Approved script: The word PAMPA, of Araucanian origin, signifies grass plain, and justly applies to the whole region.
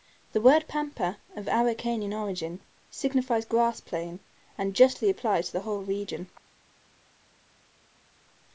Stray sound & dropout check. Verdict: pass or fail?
pass